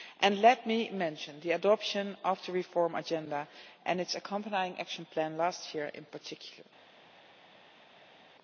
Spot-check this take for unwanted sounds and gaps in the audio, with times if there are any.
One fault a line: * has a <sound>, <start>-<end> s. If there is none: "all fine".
all fine